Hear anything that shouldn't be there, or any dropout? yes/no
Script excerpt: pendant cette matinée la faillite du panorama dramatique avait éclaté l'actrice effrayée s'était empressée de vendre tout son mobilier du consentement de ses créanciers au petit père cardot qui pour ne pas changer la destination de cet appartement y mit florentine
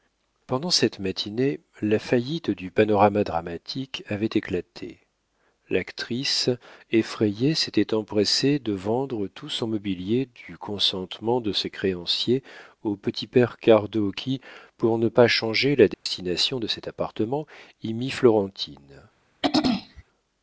yes